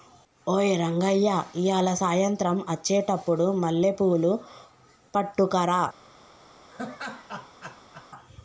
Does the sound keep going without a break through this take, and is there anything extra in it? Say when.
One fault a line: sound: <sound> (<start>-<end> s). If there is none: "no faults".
sound: laugh (6.7-8.1 s)